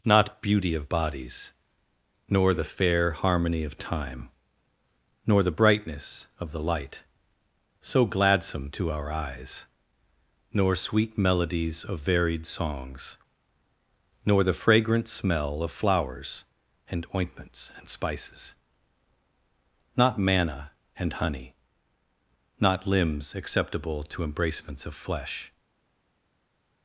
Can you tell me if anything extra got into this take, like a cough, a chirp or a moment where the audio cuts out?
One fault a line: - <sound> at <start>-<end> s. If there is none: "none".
none